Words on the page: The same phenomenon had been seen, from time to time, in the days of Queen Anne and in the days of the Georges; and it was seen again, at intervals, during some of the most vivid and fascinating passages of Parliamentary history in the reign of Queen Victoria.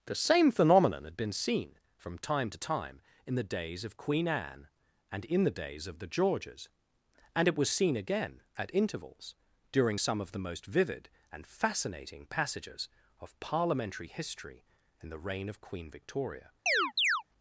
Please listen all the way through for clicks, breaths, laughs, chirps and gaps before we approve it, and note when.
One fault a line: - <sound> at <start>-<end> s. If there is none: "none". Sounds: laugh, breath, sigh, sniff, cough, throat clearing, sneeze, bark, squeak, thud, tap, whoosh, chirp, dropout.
- chirp at 16.7-17.2 s